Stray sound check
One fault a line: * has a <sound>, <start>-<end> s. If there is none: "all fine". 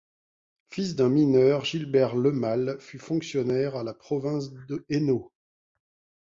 all fine